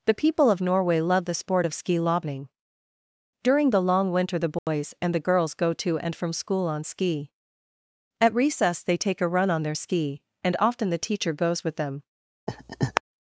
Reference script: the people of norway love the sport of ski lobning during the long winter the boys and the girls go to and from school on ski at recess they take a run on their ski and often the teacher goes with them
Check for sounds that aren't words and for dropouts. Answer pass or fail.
fail